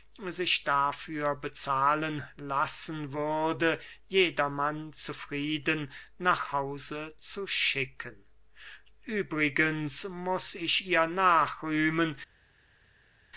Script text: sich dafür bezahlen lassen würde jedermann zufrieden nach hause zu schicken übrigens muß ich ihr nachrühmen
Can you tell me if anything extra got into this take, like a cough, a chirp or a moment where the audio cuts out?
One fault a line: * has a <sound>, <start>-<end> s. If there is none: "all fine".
all fine